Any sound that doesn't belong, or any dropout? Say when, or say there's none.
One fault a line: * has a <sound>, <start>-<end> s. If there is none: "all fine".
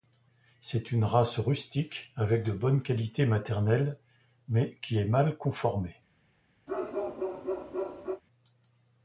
* has a bark, 6.7-8.2 s